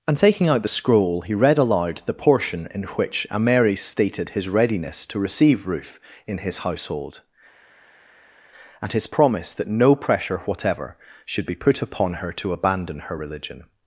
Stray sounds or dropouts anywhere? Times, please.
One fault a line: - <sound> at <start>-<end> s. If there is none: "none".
none